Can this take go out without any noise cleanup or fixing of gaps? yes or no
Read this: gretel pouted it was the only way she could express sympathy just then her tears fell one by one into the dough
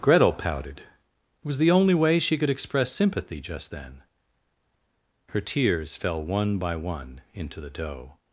yes